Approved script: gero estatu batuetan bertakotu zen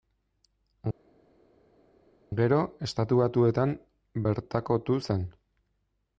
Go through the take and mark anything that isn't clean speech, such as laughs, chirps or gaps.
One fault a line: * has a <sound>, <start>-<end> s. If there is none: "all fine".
all fine